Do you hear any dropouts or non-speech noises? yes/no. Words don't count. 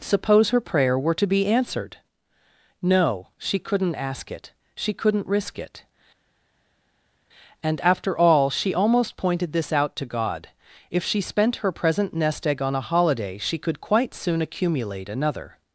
no